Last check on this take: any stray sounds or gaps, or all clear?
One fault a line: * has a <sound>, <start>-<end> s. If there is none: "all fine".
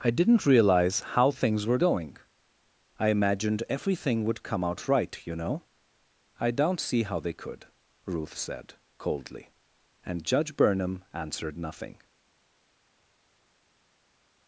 all fine